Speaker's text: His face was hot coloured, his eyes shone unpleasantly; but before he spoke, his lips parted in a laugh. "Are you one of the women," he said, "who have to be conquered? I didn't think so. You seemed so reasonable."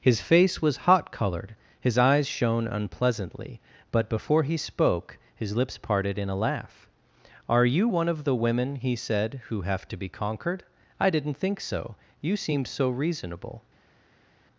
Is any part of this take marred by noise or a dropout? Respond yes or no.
no